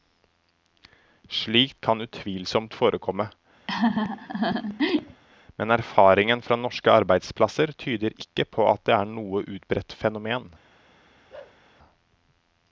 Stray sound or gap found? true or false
true